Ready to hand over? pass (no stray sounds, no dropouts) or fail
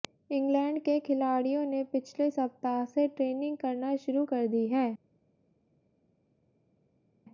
pass